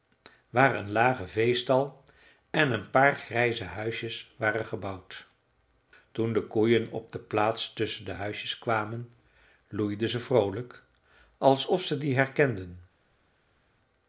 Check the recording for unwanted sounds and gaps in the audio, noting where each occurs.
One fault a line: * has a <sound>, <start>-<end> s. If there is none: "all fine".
all fine